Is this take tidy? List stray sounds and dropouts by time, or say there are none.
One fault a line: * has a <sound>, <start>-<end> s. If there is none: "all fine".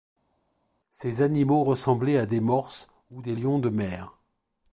all fine